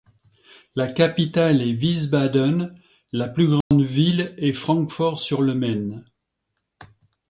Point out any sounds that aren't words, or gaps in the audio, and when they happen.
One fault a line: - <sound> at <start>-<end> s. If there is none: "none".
- dropout at 3.6-3.7 s